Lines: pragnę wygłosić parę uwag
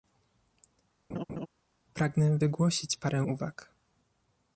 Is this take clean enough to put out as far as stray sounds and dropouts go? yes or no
no